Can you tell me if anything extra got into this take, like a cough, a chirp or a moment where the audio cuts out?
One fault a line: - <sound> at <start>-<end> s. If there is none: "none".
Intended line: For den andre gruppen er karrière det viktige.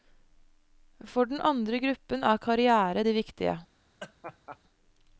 - laugh at 4.0-4.6 s